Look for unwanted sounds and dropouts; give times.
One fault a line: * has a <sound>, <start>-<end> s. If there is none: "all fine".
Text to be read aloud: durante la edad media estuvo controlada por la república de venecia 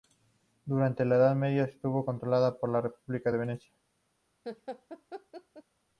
* has a laugh, 4.4-5.6 s